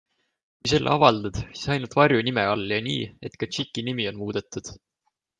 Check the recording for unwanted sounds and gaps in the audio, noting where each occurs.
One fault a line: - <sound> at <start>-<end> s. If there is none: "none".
none